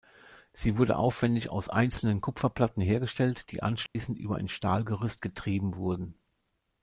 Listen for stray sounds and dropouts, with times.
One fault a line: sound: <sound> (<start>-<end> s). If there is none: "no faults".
sound: dropout (3.9-4.0 s)